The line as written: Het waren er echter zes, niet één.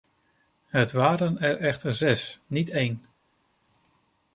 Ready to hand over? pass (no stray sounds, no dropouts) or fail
pass